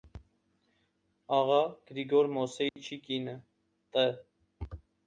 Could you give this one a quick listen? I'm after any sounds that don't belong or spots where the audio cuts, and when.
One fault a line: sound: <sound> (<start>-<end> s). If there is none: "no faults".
sound: dropout (2.7-2.8 s)